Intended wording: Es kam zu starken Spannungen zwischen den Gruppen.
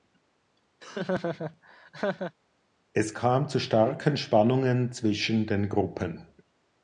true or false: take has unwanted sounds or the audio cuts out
true